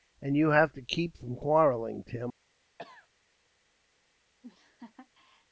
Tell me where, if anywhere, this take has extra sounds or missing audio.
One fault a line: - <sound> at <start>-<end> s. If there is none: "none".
- cough at 2.8-3.1 s
- laugh at 4.4-5.5 s